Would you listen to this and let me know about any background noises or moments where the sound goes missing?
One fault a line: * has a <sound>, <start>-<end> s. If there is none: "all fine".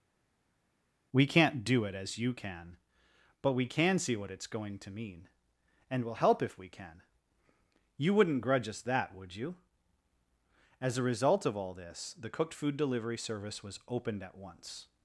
all fine